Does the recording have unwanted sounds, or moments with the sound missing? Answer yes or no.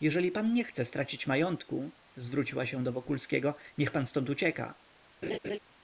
yes